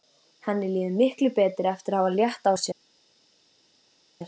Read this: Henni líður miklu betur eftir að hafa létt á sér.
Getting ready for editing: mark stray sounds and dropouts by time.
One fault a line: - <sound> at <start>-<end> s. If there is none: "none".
none